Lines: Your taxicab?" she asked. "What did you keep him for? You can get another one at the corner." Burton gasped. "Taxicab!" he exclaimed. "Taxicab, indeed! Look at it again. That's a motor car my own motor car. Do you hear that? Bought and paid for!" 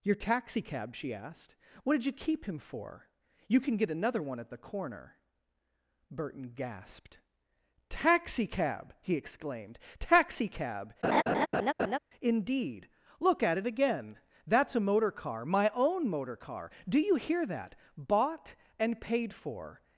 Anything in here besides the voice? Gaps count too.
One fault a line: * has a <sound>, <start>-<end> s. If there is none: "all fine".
* has a laugh, 11.0-12.0 s